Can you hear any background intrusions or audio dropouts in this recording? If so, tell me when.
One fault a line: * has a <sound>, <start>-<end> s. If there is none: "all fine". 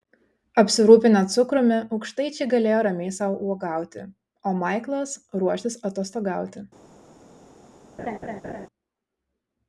* has a laugh, 8.0-8.7 s